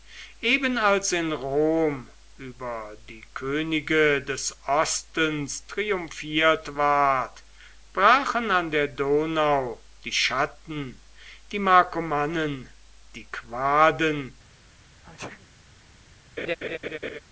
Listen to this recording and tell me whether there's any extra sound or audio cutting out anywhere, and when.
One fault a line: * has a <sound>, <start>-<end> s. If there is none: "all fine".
* has a sneeze, 15.0-15.5 s
* has a laugh, 16.4-17.2 s